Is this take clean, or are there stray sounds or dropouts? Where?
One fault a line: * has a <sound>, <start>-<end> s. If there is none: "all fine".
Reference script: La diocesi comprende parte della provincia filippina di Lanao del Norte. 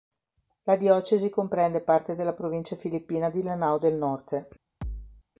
* has a thud, 4.8-5.2 s